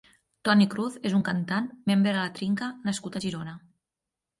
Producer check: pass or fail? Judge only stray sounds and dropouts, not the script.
pass